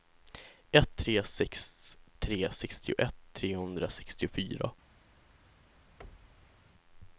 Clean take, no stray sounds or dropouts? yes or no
no